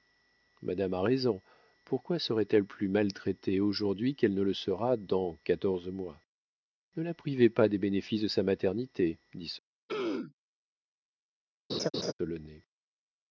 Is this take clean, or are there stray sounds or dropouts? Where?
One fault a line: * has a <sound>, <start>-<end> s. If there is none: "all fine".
* has a throat clearing, 9.9-10.3 s
* has a laugh, 11.7-12.1 s